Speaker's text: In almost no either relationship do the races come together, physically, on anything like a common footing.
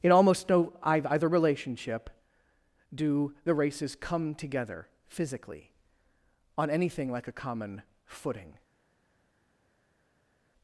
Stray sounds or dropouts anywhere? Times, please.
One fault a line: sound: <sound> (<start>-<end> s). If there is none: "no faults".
no faults